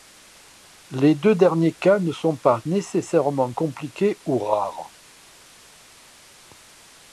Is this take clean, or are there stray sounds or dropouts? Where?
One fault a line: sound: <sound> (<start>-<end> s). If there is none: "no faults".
no faults